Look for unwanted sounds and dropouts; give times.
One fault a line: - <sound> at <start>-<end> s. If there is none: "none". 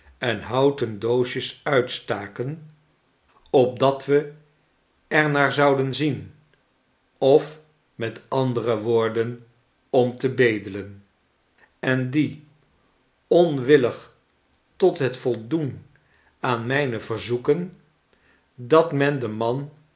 none